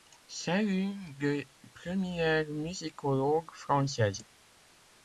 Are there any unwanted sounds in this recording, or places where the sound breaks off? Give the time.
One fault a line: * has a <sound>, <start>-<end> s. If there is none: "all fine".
all fine